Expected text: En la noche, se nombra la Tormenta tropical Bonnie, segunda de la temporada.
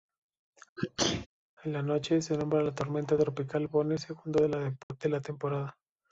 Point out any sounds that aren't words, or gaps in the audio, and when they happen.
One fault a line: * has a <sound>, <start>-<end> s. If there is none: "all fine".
* has a sneeze, 0.8-1.3 s
* has a dropout, 4.8-4.9 s